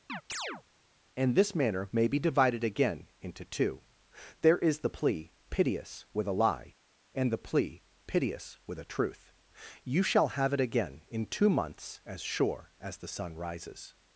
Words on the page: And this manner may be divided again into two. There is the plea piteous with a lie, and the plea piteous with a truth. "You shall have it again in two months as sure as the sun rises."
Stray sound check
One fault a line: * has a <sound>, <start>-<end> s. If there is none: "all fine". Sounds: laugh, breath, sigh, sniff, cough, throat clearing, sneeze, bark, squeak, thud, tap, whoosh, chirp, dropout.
* has a chirp, 0.1-0.6 s